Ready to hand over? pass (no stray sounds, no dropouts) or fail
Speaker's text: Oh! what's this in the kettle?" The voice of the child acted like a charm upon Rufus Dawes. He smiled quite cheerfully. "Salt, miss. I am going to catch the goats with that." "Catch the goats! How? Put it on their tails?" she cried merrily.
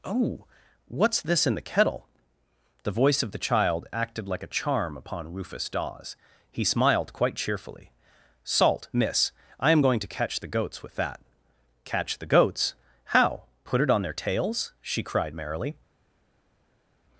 pass